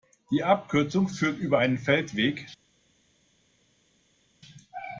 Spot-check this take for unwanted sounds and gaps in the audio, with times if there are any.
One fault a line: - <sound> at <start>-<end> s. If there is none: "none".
none